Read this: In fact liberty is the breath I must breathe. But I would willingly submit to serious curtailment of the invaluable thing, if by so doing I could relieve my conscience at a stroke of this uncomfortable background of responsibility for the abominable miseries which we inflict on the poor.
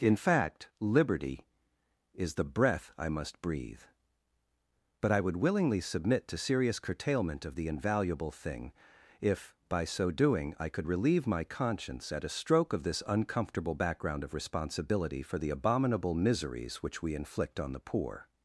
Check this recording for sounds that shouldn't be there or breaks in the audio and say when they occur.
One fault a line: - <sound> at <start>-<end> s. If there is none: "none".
none